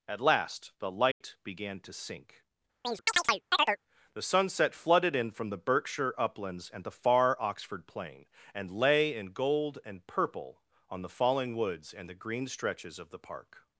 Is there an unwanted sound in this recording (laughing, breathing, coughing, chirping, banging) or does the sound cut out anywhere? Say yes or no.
yes